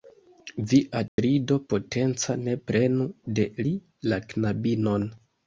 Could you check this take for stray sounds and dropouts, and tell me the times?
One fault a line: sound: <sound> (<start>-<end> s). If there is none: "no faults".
sound: dropout (1.1-1.2 s)